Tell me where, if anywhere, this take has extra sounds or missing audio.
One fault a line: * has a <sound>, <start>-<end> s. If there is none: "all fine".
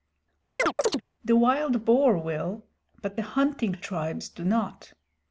* has a chirp, 0.6-1.0 s